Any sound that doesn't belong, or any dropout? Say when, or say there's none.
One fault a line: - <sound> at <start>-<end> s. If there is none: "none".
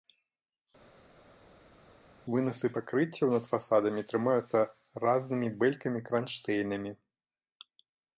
none